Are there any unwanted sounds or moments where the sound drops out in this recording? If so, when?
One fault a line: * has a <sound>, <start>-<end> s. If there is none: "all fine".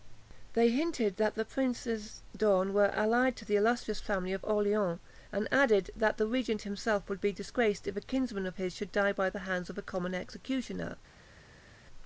all fine